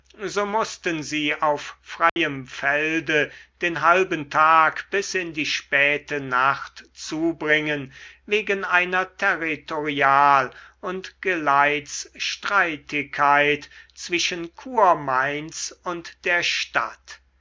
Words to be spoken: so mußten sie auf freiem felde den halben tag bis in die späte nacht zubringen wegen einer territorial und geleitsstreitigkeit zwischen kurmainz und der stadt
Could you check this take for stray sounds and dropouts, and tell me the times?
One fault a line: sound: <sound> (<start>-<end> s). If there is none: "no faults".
sound: dropout (2.1-2.2 s)